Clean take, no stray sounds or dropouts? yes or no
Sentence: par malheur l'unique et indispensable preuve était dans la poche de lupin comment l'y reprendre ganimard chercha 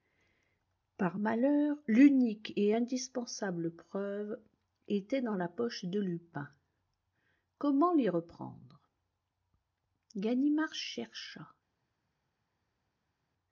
yes